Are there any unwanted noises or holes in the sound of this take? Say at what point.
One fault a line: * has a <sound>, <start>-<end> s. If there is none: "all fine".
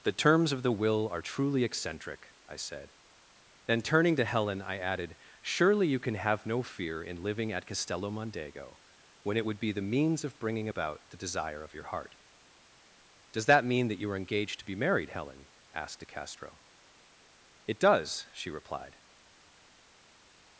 all fine